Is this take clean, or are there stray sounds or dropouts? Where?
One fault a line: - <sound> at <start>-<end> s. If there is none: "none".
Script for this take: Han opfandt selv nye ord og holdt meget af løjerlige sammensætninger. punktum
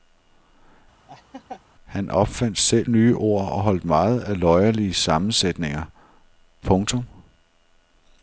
- laugh at 1.1-1.6 s